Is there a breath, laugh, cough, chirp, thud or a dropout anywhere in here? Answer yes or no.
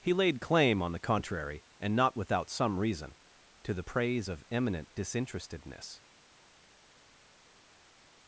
no